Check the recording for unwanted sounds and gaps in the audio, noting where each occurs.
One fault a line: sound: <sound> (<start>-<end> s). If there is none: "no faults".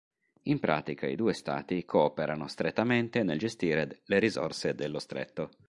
no faults